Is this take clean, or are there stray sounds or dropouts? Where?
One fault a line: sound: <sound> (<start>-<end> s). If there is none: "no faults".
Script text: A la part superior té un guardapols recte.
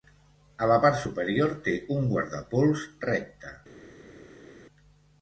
no faults